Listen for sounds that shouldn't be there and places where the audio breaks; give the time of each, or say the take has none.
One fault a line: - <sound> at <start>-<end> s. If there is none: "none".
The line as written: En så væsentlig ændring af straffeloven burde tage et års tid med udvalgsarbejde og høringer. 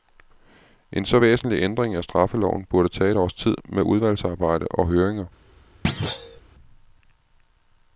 - thud at 5.8-6.4 s